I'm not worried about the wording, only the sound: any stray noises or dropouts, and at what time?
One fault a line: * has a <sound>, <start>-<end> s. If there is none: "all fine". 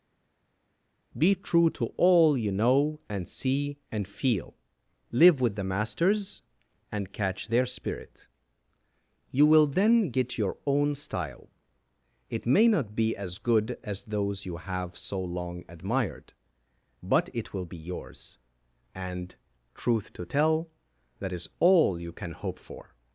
all fine